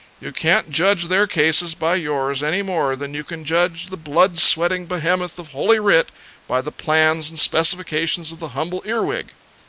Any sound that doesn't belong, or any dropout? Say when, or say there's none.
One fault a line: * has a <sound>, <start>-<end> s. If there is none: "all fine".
all fine